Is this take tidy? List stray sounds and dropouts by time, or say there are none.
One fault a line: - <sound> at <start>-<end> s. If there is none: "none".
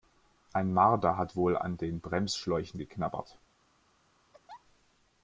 - laugh at 4.3-4.6 s